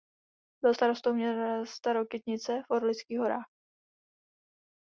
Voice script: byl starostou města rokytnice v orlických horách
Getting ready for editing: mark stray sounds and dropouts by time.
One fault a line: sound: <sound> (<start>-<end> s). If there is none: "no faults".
no faults